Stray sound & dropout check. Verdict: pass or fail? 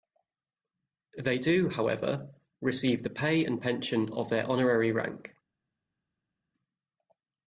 pass